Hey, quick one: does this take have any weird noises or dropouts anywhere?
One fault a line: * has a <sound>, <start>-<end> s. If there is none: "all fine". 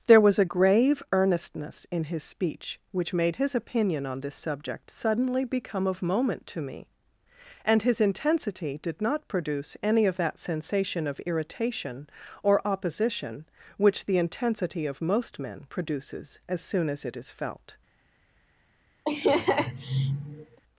* has a laugh, 19.1-20.6 s